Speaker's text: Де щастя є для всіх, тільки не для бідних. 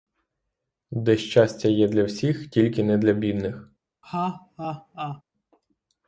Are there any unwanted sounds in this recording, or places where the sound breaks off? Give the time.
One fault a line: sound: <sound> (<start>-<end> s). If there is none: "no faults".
sound: laugh (4.0-5.2 s)